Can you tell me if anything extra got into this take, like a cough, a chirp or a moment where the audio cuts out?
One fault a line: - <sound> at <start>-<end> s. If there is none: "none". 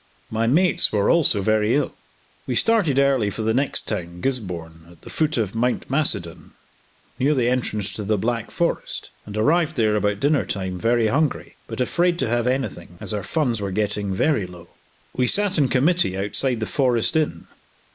none